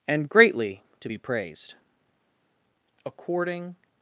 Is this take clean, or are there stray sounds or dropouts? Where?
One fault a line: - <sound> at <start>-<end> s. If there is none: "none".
none